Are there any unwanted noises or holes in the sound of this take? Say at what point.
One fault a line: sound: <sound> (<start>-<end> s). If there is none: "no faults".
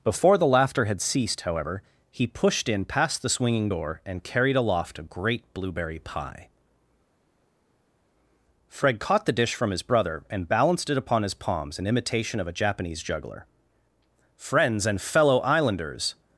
no faults